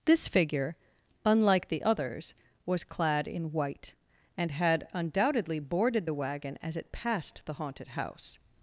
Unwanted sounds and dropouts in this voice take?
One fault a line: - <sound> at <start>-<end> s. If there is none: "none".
none